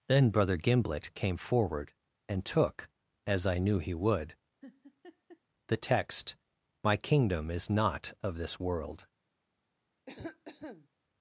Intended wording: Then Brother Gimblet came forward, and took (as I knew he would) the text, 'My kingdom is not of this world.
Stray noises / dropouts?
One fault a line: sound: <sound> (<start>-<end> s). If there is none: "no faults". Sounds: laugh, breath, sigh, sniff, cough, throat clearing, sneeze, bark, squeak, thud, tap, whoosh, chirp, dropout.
sound: laugh (4.6-5.4 s)
sound: cough (10.1-10.9 s)